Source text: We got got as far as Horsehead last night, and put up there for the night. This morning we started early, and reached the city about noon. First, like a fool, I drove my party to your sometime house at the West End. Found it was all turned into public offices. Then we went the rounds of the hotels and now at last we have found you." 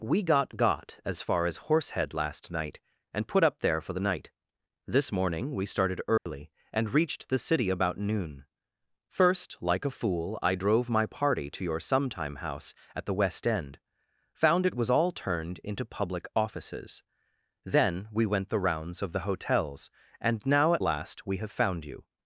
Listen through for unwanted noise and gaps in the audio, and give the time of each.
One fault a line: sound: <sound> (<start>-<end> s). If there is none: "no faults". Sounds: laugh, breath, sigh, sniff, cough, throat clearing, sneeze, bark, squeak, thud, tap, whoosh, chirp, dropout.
sound: dropout (6.2-6.3 s)